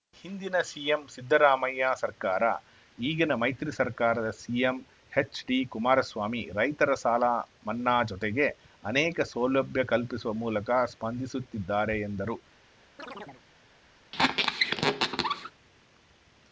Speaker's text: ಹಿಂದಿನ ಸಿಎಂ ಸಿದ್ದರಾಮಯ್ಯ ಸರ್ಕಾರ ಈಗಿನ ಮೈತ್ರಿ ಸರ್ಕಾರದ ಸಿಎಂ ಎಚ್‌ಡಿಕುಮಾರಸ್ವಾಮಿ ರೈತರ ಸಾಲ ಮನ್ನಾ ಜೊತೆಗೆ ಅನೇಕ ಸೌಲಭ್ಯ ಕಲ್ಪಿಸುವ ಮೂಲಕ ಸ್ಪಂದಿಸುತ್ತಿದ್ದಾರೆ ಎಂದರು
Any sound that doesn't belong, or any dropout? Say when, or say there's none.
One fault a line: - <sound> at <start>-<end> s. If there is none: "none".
- chirp at 13.0-13.4 s
- squeak at 14.1-15.5 s